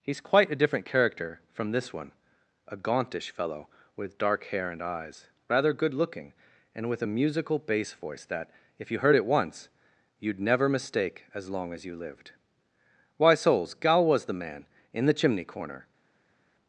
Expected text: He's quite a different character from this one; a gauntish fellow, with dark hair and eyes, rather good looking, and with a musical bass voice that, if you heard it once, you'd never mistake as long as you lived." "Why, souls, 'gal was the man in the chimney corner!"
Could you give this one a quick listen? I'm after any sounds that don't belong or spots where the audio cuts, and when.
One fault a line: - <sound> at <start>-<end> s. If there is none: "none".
none